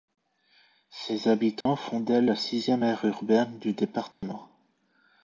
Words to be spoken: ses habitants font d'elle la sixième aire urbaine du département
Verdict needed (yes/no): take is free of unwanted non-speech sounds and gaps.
no